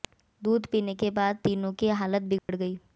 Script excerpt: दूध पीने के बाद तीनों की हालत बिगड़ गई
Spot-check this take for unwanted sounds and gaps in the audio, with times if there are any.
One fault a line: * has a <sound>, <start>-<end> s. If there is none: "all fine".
* has a dropout, 2.4-2.5 s